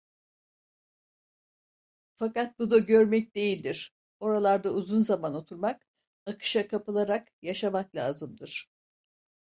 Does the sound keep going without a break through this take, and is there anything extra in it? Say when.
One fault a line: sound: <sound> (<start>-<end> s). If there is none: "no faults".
no faults